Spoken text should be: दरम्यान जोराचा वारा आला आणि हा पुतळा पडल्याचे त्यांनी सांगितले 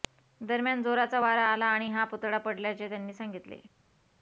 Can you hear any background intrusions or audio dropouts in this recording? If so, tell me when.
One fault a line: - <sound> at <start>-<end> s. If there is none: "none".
none